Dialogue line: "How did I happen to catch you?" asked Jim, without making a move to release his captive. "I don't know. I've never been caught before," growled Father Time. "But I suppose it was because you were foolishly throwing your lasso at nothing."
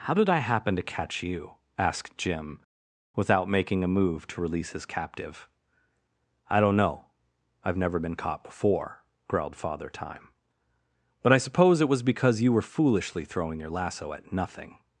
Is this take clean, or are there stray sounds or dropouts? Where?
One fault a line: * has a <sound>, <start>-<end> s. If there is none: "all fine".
all fine